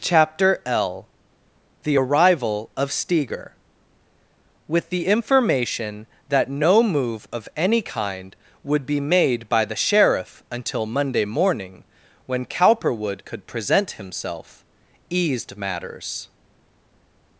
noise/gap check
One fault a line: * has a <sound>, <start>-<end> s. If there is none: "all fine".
all fine